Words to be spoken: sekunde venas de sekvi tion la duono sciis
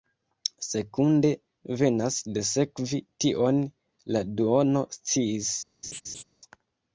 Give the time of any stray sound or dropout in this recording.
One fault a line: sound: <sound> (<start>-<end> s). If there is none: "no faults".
sound: laugh (5.8-6.2 s)